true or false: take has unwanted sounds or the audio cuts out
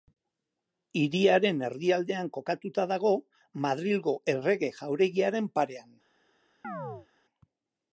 true